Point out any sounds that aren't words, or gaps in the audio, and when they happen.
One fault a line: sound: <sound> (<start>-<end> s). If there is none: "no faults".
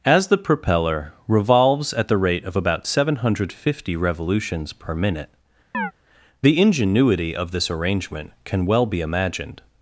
sound: chirp (5.7-5.9 s)